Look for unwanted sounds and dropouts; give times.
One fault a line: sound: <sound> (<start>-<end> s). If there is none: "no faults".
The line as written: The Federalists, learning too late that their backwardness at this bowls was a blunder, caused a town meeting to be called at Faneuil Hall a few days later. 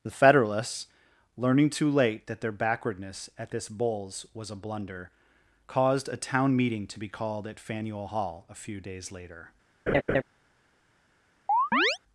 sound: laugh (9.9-10.2 s)
sound: chirp (11.5-12.0 s)